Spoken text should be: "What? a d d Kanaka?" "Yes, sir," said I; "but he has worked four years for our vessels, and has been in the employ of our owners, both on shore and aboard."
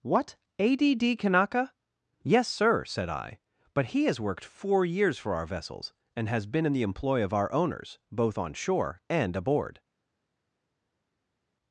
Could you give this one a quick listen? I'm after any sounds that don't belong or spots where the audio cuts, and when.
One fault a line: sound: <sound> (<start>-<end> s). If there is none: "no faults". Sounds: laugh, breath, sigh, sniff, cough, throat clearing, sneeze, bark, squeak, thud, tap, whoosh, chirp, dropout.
no faults